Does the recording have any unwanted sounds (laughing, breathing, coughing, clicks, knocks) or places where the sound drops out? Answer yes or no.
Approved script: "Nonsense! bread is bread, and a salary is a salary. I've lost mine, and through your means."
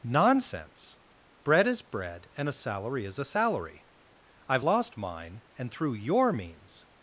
no